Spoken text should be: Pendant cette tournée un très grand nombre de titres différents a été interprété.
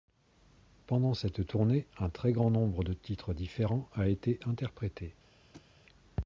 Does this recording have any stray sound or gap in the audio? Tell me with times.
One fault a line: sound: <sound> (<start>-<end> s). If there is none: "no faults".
sound: thud (5.5-5.7 s)